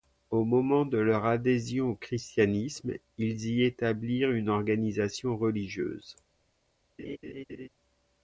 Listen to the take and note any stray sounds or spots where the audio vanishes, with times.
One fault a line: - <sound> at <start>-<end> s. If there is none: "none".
- laugh at 7.0-7.7 s